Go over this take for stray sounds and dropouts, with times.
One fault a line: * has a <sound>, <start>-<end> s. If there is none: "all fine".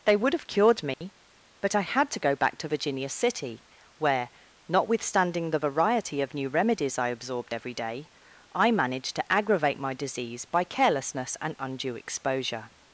* has a dropout, 0.9-1.0 s